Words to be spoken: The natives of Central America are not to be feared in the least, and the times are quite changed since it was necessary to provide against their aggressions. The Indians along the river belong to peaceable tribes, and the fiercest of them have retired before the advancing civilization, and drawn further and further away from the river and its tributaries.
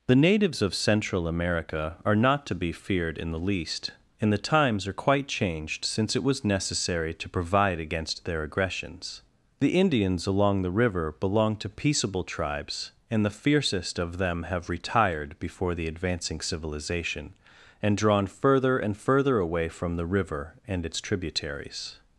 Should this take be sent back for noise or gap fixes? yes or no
no